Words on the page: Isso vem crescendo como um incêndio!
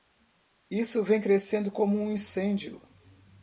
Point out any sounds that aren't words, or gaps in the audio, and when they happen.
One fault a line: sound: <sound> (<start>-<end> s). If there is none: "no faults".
no faults